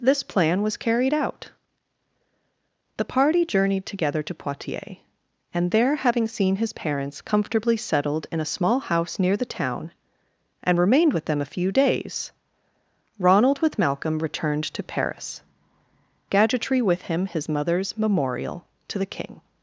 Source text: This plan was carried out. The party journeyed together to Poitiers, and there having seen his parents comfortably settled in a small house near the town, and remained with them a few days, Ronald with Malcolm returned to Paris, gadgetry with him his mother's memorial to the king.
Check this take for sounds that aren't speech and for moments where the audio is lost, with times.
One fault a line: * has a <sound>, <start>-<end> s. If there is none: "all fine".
all fine